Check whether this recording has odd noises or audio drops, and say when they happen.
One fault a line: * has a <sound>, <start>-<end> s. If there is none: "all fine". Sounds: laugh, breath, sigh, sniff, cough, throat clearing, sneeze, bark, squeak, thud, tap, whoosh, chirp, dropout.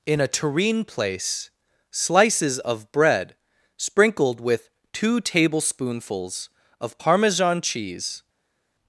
all fine